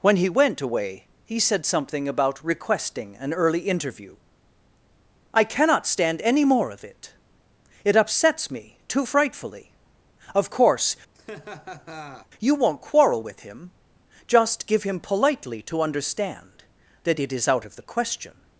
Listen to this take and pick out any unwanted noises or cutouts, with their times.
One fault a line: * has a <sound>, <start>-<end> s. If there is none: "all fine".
* has a laugh, 11.1-12.3 s